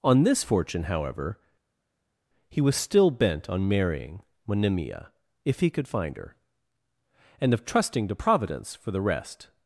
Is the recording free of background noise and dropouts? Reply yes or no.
yes